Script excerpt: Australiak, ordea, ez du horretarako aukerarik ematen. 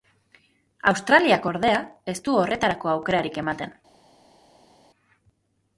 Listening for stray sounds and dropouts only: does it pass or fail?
pass